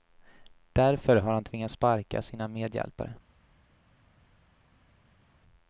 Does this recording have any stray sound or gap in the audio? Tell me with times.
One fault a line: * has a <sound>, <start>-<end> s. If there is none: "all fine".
all fine